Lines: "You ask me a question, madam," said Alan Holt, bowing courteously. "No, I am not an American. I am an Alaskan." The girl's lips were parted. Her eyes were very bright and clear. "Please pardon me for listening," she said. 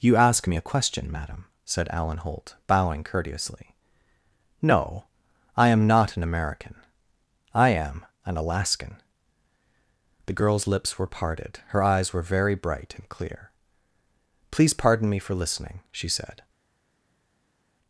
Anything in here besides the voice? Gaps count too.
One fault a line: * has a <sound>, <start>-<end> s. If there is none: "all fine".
all fine